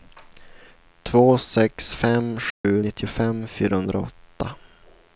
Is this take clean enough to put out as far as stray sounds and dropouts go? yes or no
no